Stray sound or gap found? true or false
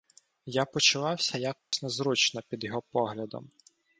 true